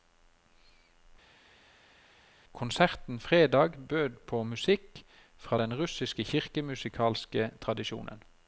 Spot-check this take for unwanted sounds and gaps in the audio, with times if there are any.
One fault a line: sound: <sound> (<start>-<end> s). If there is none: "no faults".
no faults